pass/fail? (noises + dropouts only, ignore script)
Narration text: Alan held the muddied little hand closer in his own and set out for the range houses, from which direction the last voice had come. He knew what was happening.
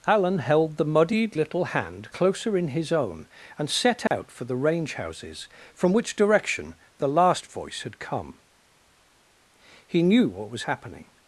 fail